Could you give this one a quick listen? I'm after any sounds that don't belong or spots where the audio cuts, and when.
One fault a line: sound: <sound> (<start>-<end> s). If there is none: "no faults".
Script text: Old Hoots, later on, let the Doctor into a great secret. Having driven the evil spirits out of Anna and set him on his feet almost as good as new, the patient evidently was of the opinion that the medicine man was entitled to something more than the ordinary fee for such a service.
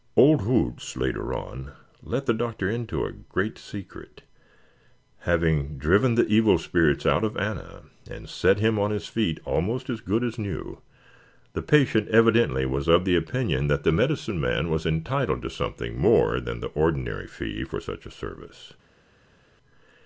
no faults